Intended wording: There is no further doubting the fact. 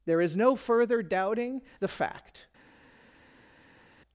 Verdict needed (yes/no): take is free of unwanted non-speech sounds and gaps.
yes